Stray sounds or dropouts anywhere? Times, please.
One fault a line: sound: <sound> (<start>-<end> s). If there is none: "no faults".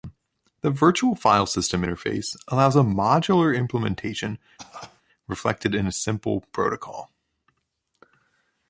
sound: cough (4.6-5.0 s)